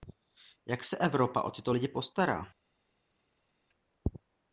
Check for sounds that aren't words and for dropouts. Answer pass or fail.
pass